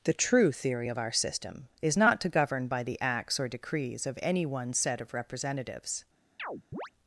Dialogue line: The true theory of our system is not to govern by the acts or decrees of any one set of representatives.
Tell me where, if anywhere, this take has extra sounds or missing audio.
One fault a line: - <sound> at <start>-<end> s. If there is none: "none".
- chirp at 6.4-6.9 s